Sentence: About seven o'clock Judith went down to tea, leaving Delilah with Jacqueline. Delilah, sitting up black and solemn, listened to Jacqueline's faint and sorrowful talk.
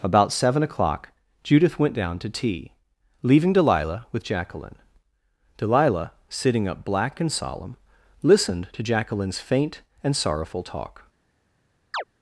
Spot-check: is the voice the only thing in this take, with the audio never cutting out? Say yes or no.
no